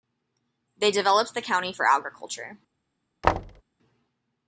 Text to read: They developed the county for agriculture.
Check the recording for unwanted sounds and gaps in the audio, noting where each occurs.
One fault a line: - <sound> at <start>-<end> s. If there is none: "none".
- thud at 3.2-3.6 s